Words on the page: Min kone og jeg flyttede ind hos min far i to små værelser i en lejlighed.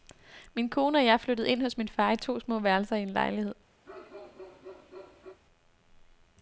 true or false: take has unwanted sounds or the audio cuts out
true